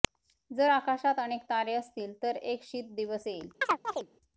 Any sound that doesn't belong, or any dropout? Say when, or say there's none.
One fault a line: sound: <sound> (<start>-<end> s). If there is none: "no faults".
sound: chirp (3.6-4.1 s)